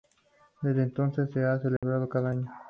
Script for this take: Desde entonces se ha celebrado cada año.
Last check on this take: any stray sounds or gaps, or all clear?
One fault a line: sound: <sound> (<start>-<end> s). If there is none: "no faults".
sound: dropout (1.8-1.8 s)